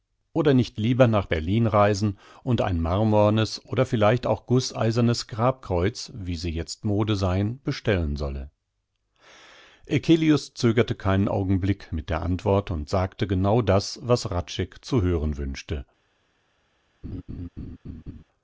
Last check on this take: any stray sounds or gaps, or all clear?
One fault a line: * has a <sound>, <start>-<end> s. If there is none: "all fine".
* has a laugh, 17.0-18.2 s